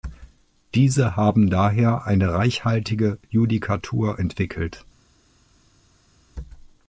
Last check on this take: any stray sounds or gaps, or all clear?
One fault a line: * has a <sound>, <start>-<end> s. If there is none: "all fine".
all fine